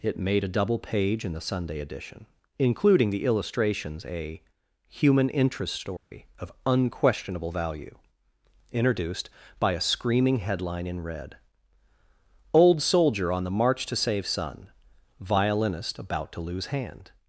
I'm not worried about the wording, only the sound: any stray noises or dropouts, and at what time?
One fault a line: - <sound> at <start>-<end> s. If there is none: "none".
- dropout at 6.0-6.1 s